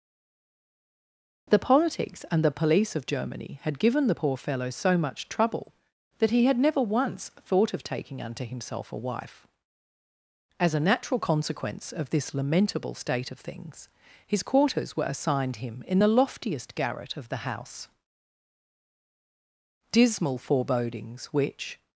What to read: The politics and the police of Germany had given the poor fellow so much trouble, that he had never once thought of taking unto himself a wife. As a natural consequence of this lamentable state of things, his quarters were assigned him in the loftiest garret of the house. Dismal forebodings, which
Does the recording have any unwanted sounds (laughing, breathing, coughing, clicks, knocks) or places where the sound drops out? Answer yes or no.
no